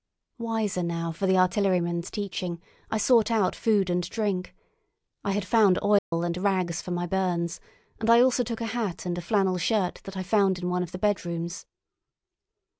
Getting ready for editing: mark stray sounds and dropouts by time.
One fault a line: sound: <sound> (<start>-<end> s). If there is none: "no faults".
sound: dropout (6.0-6.1 s)